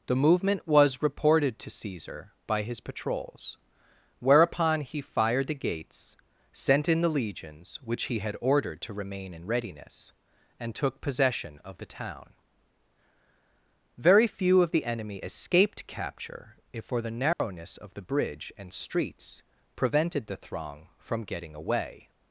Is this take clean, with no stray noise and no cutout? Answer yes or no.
no